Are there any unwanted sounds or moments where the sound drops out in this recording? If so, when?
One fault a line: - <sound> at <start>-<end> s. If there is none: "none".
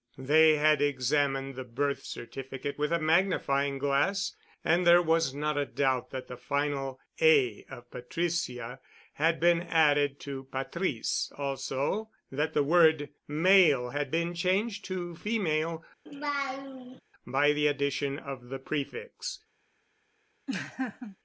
- laugh at 16.1-17.0 s
- laugh at 20.5-21.2 s